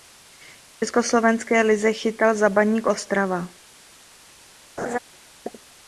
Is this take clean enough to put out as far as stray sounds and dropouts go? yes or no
no